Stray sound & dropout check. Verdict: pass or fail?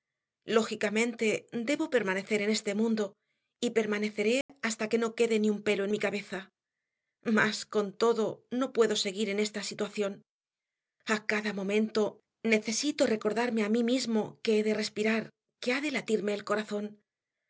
fail